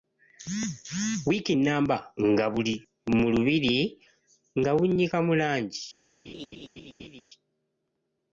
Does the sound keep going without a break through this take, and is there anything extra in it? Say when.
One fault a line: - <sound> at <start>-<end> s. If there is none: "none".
- laugh at 6.3-7.2 s